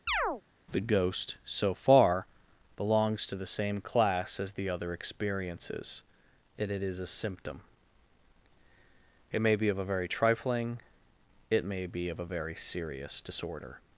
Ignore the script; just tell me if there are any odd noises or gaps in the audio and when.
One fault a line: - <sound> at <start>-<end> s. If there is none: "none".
- chirp at 0.1-0.4 s